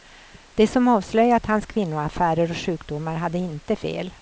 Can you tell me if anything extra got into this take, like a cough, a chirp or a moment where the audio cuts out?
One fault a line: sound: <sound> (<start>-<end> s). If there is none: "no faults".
no faults